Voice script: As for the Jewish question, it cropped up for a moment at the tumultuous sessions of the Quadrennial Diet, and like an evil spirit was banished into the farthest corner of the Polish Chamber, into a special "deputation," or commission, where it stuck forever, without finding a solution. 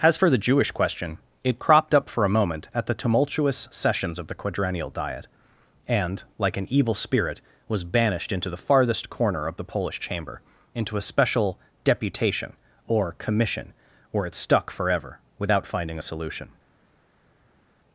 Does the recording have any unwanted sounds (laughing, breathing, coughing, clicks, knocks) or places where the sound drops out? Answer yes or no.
no